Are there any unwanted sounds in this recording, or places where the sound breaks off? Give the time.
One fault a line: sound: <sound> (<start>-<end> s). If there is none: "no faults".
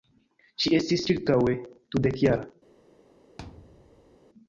sound: thud (3.4-4.2 s)